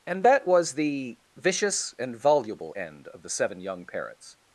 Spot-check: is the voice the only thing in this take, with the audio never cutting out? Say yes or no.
yes